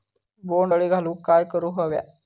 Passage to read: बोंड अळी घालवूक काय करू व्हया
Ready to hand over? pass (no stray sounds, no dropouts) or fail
pass